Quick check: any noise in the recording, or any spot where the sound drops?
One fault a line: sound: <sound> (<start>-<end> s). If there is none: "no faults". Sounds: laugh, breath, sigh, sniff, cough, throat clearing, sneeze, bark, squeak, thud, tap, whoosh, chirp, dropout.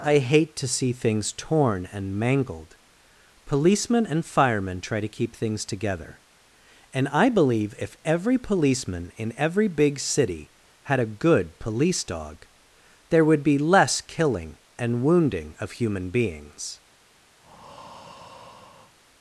sound: breath (17.4-19.0 s)